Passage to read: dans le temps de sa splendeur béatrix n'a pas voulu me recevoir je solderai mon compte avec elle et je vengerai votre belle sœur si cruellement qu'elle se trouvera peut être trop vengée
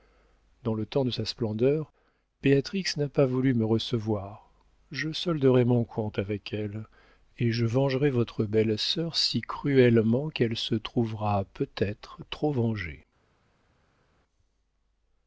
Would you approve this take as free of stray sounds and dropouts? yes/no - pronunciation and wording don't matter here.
yes